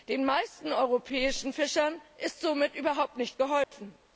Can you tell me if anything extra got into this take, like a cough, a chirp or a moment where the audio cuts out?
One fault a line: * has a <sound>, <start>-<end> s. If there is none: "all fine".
* has a dropout, 3.6-3.7 s